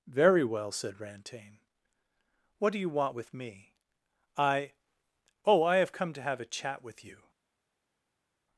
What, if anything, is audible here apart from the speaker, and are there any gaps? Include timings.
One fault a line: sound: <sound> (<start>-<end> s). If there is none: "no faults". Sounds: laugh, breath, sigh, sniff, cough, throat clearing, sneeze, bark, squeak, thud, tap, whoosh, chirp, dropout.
no faults